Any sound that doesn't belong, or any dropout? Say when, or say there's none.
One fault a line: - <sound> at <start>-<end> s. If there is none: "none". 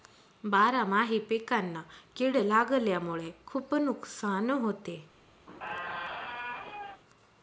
- squeak at 5.5-7.0 s